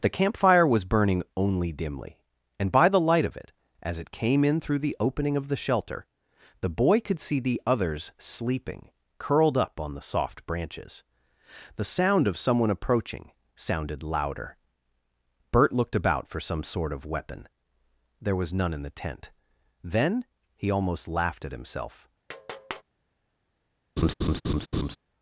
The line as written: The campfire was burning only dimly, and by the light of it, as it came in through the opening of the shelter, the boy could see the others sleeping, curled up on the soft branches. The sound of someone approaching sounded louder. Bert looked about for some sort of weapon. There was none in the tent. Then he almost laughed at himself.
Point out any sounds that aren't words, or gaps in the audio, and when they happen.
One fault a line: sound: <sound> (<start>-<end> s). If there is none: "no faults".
sound: tap (22.3-22.8 s)
sound: laugh (24.0-25.0 s)